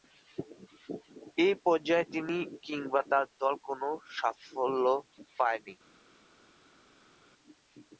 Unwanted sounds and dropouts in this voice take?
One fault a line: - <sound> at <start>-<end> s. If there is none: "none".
none